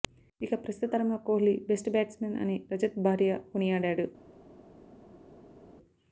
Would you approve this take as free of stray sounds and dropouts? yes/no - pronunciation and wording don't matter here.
yes